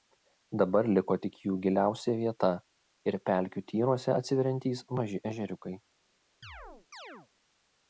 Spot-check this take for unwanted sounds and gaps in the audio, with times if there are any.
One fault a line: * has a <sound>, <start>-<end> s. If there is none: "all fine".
* has a chirp, 6.4-7.3 s